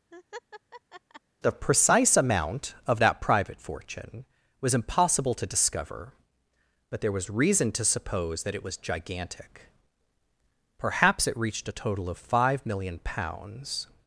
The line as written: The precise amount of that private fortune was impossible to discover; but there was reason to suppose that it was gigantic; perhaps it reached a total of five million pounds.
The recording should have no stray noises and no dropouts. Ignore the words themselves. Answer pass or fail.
fail